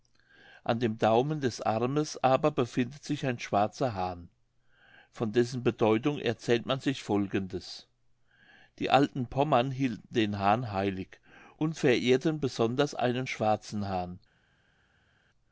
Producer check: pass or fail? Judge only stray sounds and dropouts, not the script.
pass